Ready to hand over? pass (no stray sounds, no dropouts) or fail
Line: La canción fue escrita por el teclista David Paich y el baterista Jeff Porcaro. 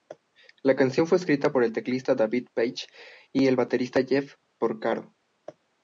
pass